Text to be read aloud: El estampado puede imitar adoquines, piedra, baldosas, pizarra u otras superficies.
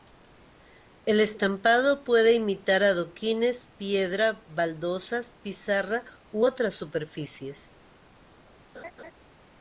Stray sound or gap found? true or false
true